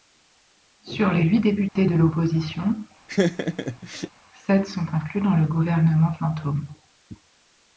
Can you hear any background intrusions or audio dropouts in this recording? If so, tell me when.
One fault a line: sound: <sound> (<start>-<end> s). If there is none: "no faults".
sound: dropout (1.7-1.8 s)
sound: laugh (3.1-4.1 s)